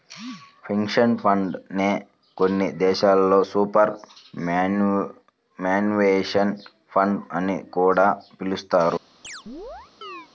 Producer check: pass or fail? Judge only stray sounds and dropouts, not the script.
fail